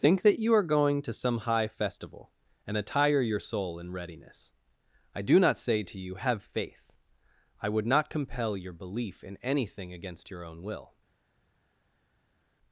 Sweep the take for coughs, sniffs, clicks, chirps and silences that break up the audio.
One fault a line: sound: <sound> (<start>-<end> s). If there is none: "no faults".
no faults